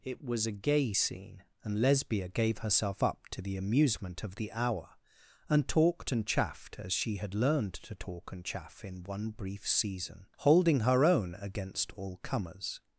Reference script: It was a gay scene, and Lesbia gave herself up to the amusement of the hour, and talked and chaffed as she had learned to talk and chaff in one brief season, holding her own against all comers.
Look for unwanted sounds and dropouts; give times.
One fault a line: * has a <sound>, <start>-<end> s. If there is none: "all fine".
all fine